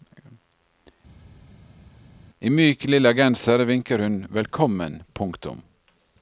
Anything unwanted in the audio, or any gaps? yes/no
no